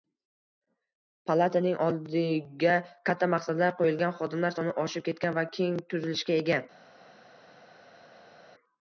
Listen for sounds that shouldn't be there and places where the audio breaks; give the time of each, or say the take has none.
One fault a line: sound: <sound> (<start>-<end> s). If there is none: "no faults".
no faults